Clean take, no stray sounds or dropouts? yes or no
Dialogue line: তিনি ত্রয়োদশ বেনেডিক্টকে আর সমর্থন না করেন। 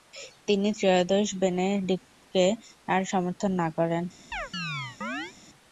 no